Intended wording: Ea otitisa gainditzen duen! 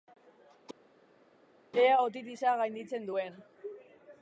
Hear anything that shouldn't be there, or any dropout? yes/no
no